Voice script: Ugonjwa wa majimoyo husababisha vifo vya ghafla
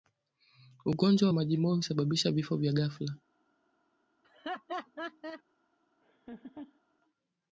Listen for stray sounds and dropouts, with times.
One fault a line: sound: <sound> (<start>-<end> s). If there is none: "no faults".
sound: laugh (4.2-5.4 s)
sound: laugh (6.0-6.8 s)